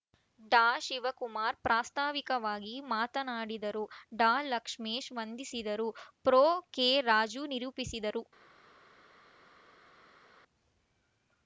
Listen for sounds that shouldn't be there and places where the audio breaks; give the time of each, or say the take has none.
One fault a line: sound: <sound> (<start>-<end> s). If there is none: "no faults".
no faults